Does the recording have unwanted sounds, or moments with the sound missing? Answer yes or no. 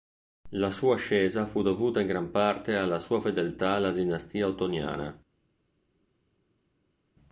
no